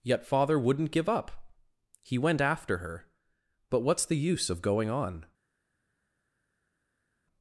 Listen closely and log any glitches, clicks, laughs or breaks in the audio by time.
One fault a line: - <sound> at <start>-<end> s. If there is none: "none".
none